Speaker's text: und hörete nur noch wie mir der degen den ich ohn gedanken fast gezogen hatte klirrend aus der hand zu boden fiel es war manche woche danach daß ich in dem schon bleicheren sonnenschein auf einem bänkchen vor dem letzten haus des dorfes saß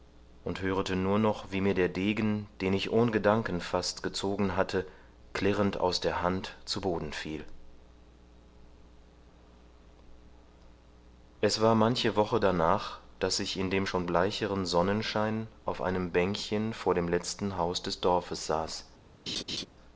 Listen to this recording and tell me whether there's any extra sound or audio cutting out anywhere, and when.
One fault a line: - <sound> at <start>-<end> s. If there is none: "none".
- laugh at 19.3-19.7 s